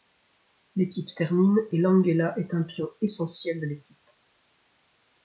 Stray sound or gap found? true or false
false